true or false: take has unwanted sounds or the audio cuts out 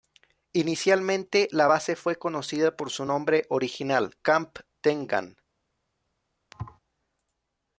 true